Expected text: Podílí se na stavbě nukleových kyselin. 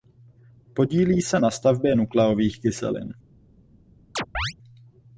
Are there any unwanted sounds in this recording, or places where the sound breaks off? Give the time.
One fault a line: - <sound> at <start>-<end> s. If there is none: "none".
- chirp at 4.2-4.5 s